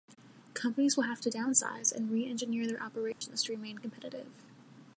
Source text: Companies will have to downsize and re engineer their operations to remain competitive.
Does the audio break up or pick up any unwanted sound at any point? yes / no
yes